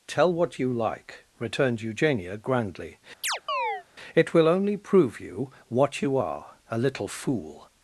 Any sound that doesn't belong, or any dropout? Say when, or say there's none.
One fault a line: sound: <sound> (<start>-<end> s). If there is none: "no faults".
sound: chirp (3.2-3.8 s)